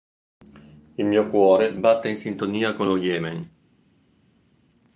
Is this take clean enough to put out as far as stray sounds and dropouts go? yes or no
yes